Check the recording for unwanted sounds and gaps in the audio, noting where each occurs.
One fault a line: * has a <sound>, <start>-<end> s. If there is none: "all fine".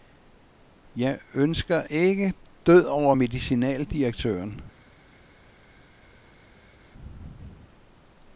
all fine